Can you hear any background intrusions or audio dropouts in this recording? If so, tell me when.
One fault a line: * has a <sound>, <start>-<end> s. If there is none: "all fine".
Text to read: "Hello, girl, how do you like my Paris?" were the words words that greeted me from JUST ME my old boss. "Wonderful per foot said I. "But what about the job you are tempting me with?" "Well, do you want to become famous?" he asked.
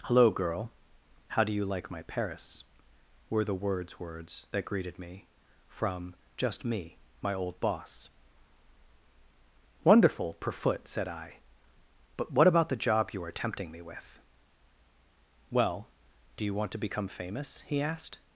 all fine